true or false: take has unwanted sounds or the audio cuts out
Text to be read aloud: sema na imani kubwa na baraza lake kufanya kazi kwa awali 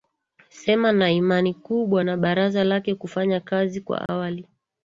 true